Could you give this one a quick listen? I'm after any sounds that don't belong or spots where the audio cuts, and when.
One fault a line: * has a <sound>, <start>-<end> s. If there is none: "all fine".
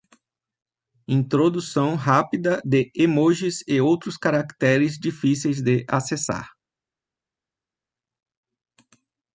all fine